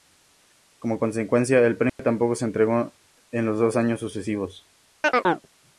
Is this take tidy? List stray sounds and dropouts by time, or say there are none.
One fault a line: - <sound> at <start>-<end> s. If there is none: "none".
- dropout at 1.9-2.0 s
- chirp at 5.0-5.5 s